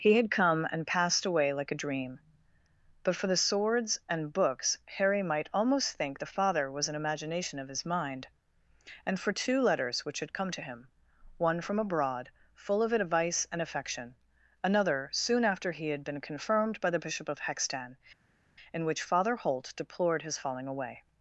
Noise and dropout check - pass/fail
pass